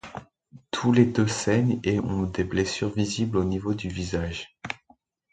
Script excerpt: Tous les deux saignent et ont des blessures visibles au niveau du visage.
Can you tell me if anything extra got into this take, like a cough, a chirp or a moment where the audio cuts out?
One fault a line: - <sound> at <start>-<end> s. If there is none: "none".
none